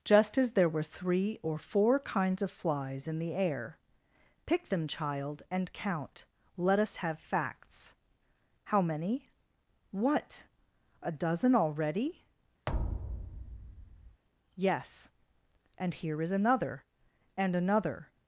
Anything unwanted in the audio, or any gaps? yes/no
yes